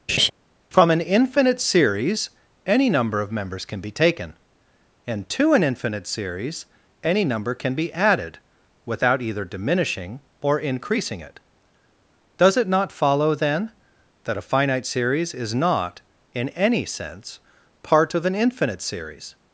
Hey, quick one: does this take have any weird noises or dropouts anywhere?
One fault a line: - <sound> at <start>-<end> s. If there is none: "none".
- laugh at 0.1-0.3 s